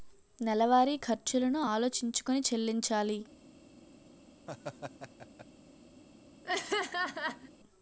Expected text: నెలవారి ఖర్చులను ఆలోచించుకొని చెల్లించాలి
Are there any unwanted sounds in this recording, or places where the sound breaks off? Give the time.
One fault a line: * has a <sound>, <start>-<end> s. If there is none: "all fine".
* has a laugh, 4.5-5.5 s
* has a laugh, 6.4-7.5 s